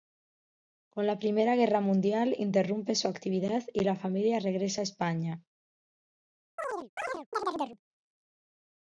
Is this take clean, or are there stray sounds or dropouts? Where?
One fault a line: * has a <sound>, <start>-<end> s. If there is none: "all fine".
* has a chirp, 6.6-7.8 s